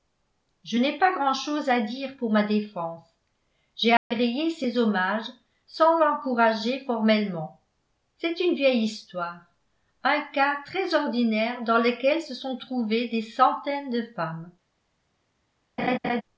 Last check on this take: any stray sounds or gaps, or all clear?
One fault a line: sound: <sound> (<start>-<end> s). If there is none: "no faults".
sound: dropout (4.0-4.1 s)
sound: laugh (15.8-16.2 s)